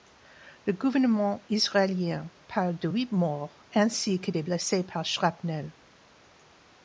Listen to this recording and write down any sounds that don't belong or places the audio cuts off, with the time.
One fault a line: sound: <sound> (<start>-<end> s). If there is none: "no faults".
no faults